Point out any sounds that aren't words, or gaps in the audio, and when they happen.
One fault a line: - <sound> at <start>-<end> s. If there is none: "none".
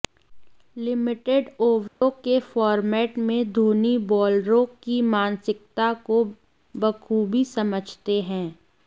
- dropout at 1.9-2.0 s